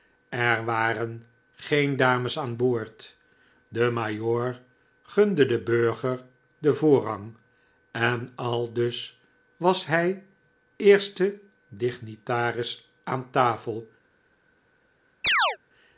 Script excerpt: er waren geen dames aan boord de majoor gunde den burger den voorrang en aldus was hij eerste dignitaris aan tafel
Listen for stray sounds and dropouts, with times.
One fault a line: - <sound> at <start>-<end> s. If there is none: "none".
- chirp at 15.2-15.6 s